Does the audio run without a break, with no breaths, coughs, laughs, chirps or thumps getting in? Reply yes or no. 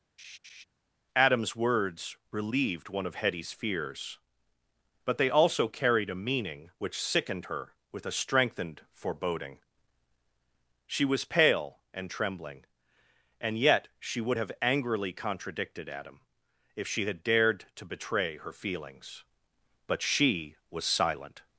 no